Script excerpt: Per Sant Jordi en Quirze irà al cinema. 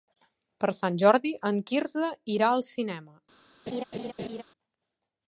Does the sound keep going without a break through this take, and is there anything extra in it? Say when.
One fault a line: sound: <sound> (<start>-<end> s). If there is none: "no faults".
sound: laugh (3.7-4.4 s)